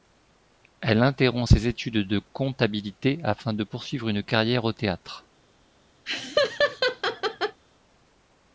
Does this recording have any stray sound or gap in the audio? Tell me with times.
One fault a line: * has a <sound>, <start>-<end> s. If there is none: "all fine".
* has a laugh, 6.0-7.6 s